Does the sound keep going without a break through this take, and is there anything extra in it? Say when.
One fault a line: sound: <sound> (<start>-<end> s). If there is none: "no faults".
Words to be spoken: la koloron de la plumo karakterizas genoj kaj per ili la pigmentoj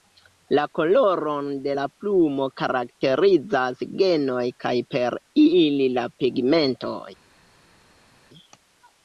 no faults